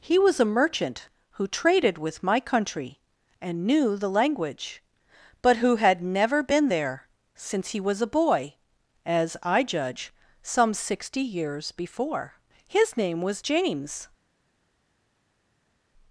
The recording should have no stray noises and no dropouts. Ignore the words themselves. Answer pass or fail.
pass